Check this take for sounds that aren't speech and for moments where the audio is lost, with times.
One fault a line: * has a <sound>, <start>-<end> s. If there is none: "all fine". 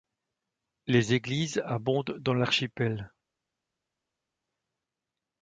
all fine